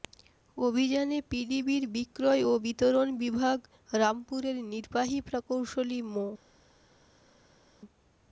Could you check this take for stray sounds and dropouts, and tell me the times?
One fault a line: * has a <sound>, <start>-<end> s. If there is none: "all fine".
all fine